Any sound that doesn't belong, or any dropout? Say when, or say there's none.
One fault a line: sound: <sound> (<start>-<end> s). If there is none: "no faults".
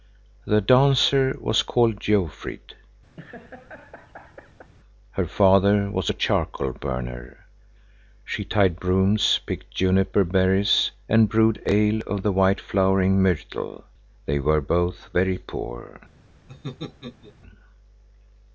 sound: laugh (3.2-4.7 s)
sound: laugh (16.5-17.4 s)